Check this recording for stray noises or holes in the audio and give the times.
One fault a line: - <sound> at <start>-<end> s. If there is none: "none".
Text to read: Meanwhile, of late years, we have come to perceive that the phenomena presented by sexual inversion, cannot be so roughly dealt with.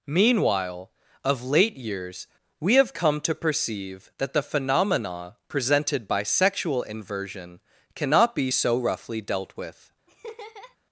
- laugh at 10.1-10.8 s